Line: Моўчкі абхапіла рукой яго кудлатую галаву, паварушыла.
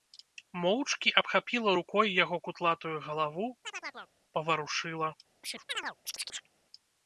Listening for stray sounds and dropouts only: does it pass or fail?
fail